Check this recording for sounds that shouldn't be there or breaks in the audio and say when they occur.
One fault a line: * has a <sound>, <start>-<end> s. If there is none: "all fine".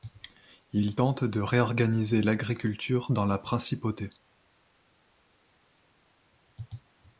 all fine